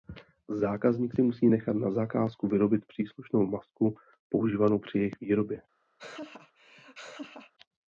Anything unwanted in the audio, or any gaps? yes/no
yes